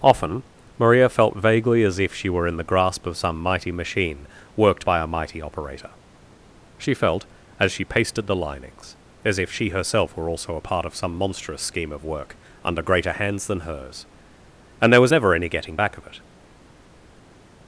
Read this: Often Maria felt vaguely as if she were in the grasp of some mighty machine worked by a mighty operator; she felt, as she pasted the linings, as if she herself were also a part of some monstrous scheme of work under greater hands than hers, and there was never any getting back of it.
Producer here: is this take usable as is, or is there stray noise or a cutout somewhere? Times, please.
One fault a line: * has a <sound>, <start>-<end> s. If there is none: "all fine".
all fine